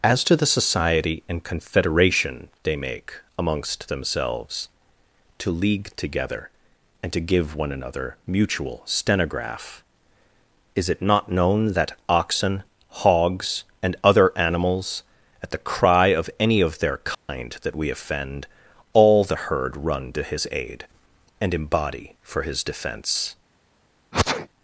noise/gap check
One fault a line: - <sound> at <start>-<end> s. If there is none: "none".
- dropout at 17.1-17.3 s
- sneeze at 24.1-24.5 s